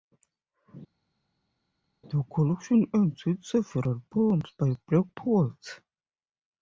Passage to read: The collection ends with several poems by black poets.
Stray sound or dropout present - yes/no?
no